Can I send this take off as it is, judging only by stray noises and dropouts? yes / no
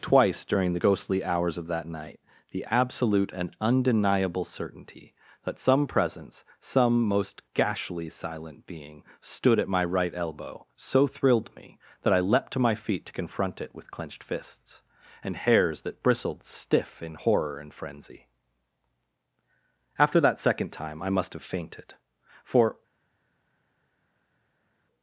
yes